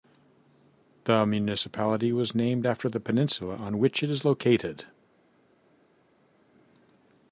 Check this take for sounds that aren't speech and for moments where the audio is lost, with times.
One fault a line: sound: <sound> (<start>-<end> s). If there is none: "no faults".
no faults